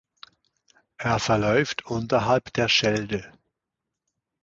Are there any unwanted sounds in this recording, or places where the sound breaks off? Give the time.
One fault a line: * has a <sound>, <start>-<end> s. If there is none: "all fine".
all fine